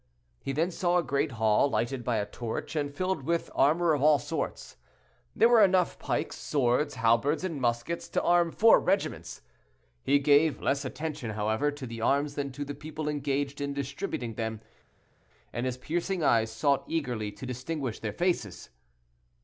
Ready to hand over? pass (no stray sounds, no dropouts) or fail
pass